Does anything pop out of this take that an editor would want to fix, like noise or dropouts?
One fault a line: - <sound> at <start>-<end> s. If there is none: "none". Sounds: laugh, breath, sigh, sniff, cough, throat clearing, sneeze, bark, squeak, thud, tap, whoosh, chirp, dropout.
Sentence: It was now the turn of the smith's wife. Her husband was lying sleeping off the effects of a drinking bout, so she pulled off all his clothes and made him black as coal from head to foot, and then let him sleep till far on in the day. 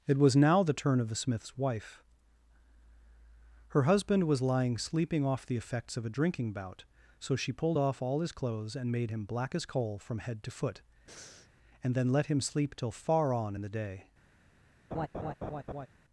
- breath at 11.1-11.5 s
- laugh at 14.9-15.9 s